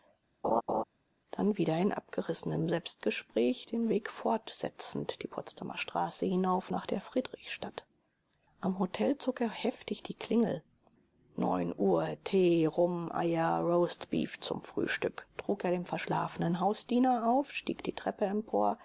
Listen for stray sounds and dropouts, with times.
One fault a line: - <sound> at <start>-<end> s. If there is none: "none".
- laugh at 0.4-0.8 s